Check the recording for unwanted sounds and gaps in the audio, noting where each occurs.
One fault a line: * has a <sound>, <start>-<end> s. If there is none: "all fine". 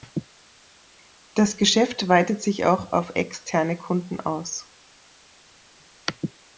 all fine